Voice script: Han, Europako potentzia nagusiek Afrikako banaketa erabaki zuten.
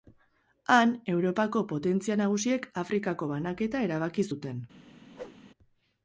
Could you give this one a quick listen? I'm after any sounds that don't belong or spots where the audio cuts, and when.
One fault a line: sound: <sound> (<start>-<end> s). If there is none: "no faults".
sound: whoosh (5.1-5.4 s)